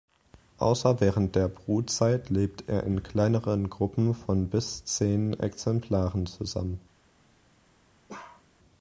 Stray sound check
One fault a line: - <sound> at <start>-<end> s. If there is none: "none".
- bark at 8.1-8.5 s